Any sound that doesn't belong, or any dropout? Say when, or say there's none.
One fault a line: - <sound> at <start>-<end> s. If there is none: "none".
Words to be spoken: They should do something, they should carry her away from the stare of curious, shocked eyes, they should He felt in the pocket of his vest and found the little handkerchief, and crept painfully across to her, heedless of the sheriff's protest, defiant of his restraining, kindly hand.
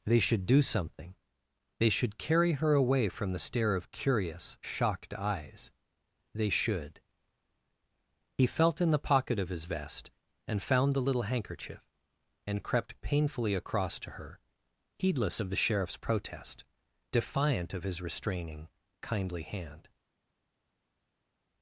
none